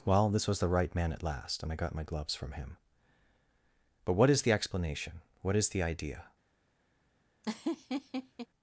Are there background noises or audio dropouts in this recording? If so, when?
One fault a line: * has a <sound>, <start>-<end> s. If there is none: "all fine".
* has a laugh, 7.4-8.5 s